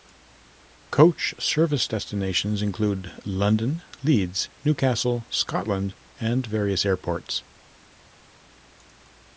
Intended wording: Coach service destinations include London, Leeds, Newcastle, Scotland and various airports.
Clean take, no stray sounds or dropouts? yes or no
yes